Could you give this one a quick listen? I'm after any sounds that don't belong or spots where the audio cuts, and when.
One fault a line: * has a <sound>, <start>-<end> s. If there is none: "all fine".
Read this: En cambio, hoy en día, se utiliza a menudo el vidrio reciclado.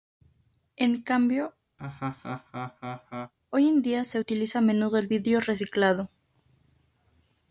* has a laugh, 1.8-3.3 s